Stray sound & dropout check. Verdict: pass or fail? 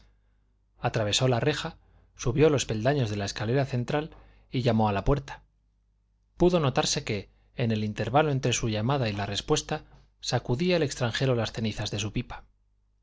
pass